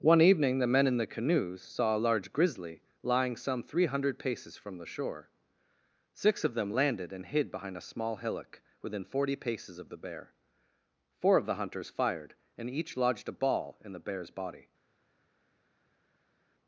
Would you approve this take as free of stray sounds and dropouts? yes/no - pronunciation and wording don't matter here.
yes